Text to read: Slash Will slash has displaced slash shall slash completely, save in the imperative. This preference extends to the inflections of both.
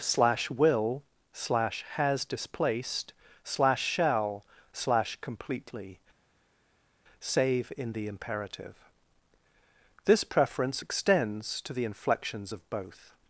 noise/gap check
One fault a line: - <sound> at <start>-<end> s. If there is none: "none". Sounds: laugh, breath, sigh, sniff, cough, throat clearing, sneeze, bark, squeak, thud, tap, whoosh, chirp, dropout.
none